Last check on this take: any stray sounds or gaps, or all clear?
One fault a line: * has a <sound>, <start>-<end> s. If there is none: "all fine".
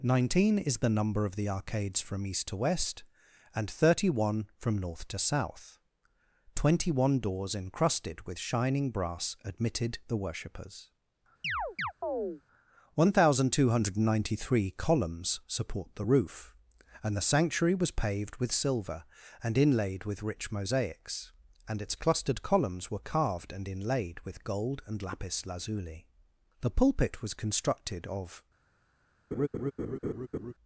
* has a chirp, 11.4-12.4 s
* has a laugh, 29.3-30.5 s